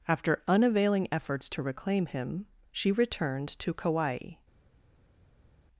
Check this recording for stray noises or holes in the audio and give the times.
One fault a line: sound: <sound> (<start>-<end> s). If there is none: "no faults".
no faults